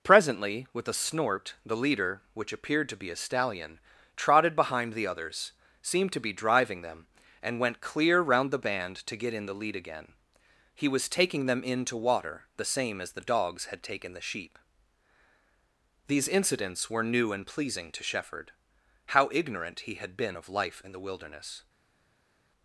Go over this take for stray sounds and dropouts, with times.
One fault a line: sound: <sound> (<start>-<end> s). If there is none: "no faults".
no faults